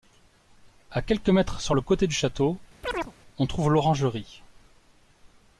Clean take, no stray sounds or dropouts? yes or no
no